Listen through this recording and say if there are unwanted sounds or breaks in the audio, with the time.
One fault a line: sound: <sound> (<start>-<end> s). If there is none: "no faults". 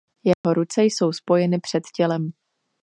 sound: dropout (0.3-0.4 s)